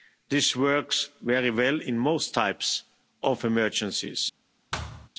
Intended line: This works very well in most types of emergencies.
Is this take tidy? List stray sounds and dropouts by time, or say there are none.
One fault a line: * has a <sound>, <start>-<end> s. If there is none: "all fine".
* has a thud, 4.7-5.1 s